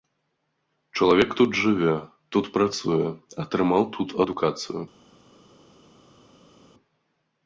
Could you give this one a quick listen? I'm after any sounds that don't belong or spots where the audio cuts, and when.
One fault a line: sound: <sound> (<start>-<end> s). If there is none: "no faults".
no faults